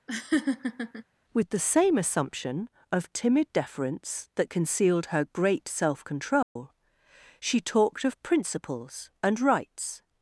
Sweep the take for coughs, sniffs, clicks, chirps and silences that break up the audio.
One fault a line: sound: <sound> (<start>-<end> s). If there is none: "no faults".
sound: laugh (0.1-1.0 s)
sound: dropout (6.4-6.6 s)